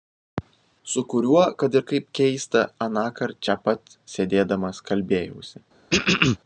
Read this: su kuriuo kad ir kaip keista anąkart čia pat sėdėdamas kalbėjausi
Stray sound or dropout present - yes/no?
yes